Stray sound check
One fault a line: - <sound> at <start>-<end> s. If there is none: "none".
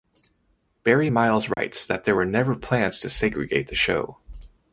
- dropout at 1.5-1.6 s